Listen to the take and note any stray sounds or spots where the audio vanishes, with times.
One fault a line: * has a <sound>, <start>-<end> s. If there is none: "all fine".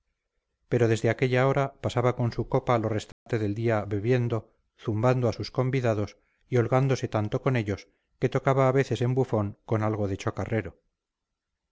* has a dropout, 3.1-3.3 s